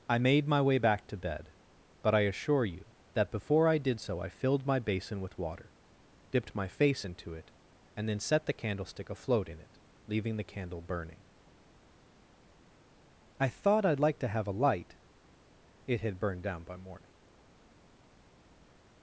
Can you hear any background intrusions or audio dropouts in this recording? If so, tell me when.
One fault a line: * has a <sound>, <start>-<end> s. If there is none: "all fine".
all fine